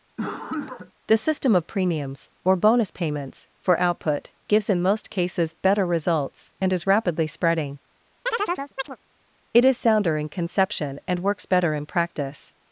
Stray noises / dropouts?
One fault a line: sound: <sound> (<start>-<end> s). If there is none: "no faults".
sound: cough (0.2-0.9 s)
sound: chirp (8.3-9.0 s)